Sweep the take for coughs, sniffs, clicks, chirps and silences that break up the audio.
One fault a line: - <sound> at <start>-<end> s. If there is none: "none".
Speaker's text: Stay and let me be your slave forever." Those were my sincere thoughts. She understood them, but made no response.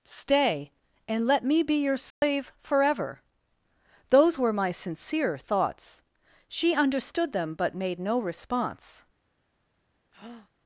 - dropout at 2.1-2.2 s
- breath at 10.1-10.5 s